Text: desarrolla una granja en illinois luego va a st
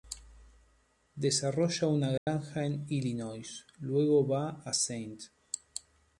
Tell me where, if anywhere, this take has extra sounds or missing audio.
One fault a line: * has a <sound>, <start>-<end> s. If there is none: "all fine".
* has a dropout, 2.2-2.3 s